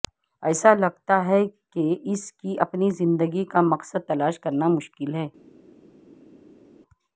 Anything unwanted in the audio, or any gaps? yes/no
no